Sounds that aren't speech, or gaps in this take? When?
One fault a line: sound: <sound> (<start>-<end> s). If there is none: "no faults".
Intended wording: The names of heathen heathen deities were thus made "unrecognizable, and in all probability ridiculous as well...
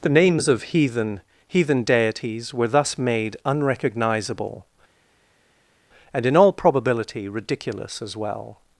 no faults